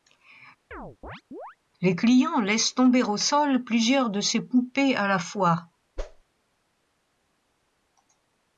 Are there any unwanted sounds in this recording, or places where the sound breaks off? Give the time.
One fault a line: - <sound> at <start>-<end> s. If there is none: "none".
- chirp at 0.7-1.6 s
- whoosh at 6.0-6.2 s